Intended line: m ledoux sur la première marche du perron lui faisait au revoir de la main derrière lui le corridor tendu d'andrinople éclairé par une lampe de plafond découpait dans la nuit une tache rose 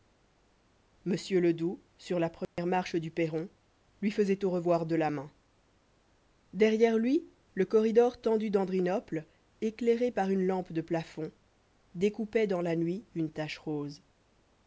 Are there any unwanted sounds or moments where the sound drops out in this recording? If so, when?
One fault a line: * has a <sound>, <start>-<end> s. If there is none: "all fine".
* has a dropout, 2.4-2.6 s